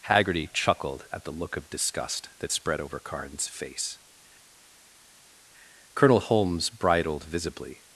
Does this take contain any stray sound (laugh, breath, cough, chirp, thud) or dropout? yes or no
no